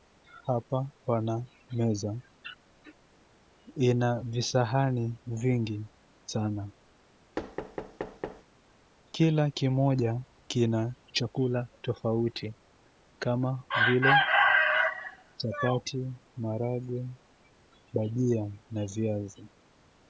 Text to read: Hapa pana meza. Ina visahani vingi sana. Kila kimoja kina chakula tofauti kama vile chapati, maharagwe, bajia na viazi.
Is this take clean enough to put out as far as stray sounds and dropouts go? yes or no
no